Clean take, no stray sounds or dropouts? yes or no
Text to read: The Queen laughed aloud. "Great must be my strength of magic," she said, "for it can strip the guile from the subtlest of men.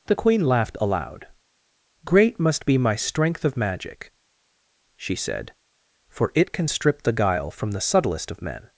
yes